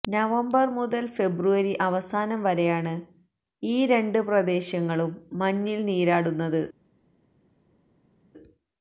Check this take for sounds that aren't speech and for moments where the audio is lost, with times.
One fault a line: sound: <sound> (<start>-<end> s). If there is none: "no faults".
no faults